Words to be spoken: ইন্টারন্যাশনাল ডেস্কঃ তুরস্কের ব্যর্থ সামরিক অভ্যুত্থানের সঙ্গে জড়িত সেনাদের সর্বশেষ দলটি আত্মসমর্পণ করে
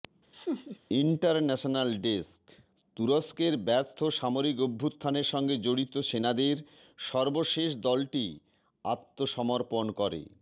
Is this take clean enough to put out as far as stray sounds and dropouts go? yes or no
no